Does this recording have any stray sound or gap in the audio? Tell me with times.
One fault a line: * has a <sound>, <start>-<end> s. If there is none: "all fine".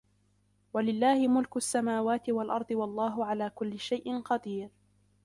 all fine